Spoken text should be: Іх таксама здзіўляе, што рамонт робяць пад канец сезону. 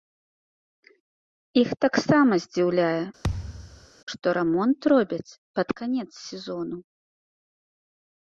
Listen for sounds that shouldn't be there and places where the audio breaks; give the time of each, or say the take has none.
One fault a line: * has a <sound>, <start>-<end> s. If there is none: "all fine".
* has a thud, 3.2-3.9 s